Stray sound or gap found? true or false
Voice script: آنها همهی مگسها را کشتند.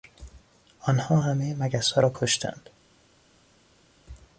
false